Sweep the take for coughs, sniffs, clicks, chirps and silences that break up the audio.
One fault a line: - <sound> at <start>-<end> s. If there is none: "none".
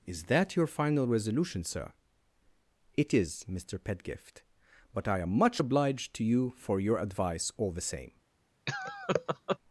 - laugh at 8.7-9.6 s